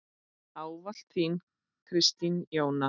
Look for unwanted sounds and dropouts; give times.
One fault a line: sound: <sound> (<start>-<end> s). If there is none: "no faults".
no faults